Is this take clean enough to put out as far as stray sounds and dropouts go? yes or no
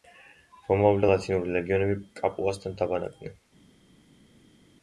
yes